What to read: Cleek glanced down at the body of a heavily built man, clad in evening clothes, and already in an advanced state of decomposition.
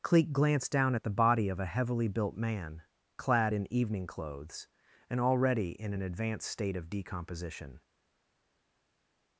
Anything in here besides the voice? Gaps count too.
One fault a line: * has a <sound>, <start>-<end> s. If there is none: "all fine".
all fine